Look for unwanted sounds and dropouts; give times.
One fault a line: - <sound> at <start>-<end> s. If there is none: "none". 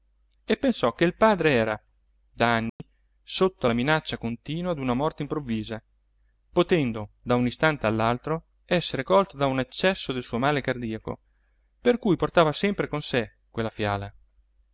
- dropout at 2.7-2.8 s